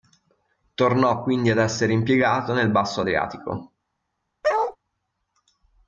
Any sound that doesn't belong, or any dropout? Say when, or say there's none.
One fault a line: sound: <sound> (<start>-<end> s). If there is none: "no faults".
sound: bark (4.4-4.8 s)